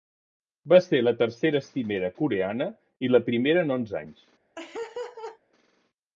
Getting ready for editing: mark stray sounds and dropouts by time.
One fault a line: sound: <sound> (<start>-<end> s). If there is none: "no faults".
sound: laugh (4.6-5.4 s)